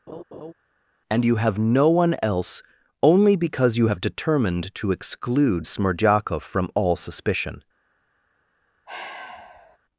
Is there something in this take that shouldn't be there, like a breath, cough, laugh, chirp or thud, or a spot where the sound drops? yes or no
yes